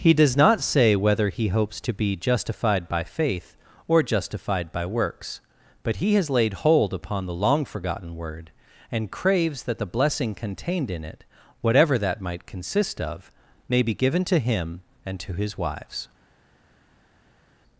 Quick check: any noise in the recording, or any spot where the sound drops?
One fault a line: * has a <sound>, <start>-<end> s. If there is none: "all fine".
all fine